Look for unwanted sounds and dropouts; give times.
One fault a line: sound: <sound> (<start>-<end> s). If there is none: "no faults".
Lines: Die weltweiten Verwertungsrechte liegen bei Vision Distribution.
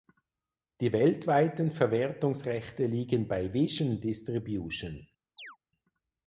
sound: chirp (5.4-5.6 s)